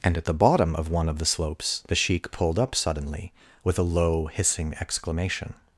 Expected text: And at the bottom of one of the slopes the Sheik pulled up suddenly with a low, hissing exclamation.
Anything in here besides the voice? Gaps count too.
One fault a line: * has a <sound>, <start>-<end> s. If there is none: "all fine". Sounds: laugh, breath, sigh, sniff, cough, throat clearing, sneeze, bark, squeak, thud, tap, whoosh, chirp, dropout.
all fine